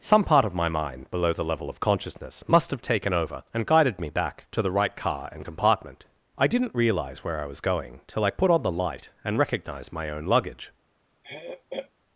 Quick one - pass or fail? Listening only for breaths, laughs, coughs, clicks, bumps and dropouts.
fail